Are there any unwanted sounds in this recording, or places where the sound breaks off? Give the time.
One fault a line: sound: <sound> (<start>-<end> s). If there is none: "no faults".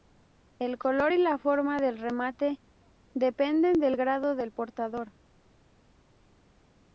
no faults